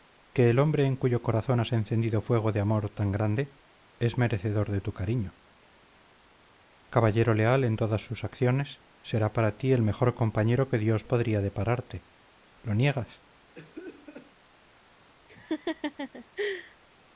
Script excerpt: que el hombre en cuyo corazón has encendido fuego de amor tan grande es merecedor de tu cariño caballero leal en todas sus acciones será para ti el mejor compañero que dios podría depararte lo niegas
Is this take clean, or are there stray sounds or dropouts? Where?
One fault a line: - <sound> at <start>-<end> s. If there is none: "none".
- cough at 13.5-14.3 s
- laugh at 15.3-16.8 s